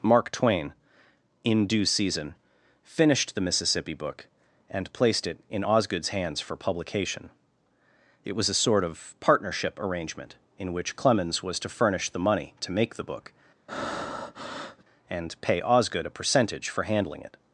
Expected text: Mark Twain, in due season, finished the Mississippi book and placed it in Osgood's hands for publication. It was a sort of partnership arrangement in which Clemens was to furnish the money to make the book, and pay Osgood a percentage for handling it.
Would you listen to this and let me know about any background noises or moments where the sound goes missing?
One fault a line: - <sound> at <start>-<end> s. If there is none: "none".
- breath at 13.7-14.8 s